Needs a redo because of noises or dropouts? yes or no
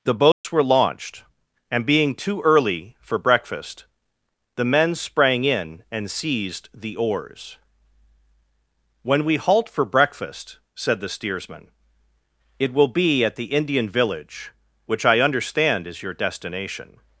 yes